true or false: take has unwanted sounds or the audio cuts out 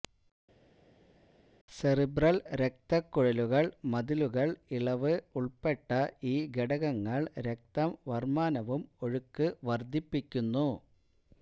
false